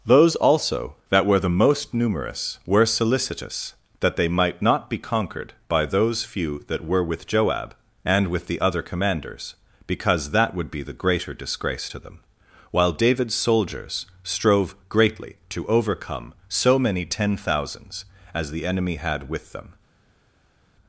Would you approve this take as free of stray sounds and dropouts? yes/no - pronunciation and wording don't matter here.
yes